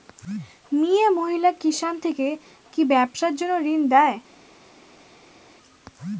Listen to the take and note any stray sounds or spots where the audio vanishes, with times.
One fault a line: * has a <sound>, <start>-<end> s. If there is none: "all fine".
all fine